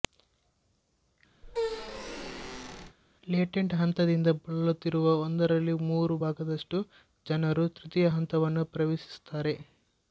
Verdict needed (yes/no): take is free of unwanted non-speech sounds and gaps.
no